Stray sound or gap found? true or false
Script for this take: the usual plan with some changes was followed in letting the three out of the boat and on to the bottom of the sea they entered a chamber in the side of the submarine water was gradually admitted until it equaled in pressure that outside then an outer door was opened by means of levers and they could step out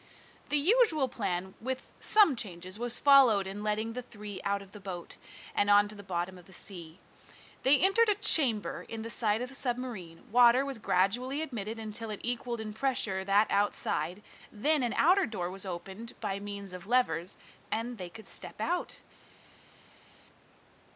false